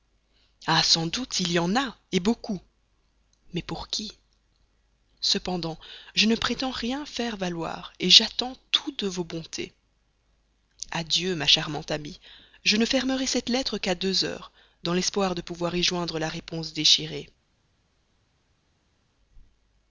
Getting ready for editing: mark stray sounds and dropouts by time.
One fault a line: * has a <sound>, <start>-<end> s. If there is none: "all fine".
all fine